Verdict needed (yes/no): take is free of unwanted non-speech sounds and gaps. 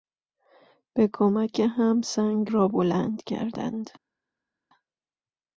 yes